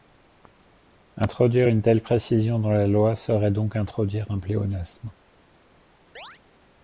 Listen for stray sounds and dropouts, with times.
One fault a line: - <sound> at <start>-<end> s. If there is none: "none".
- chirp at 6.2-6.4 s